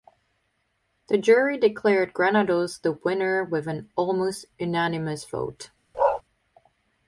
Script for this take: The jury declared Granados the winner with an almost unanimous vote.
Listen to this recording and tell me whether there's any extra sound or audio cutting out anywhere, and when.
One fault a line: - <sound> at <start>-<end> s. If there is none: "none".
- bark at 5.9-6.2 s